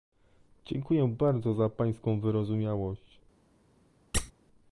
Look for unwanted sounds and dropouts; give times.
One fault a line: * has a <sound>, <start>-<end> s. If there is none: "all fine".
* has a squeak, 4.1-4.3 s